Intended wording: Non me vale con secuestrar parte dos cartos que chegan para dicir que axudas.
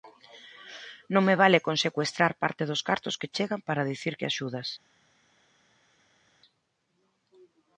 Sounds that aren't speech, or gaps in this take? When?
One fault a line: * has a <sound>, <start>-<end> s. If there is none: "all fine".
all fine